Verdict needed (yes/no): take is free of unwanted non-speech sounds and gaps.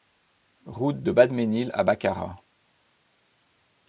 yes